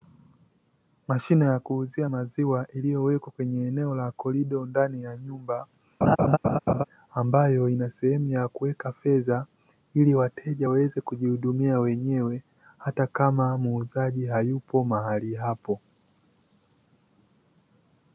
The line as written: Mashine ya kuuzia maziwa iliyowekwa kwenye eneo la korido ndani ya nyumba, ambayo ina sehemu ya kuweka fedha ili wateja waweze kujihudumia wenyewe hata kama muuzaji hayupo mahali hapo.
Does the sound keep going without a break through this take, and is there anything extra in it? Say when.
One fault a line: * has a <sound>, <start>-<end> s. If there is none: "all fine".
* has a laugh, 6.0-6.8 s